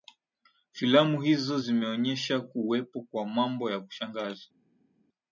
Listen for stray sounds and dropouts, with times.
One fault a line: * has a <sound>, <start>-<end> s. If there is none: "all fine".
all fine